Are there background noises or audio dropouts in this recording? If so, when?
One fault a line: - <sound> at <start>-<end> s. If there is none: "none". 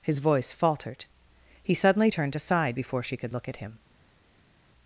none